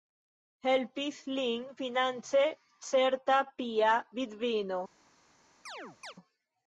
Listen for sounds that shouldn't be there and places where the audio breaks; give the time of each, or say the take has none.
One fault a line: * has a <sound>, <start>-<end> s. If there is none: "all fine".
* has a chirp, 5.7-6.1 s